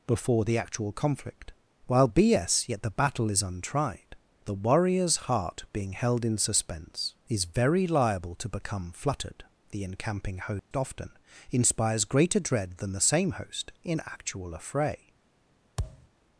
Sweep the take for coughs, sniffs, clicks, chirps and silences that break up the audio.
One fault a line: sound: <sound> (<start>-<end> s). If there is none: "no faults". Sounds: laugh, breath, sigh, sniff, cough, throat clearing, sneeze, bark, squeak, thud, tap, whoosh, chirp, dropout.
sound: dropout (10.6-10.7 s)
sound: thud (15.8-16.1 s)